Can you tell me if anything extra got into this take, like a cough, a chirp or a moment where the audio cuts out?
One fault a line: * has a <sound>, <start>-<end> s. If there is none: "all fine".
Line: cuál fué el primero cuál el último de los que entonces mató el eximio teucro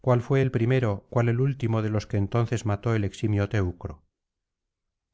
all fine